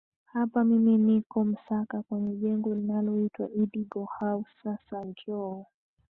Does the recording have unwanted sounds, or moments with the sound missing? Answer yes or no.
no